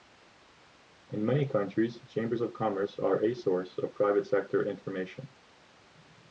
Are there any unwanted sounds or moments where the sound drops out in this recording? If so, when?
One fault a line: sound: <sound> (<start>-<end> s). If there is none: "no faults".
no faults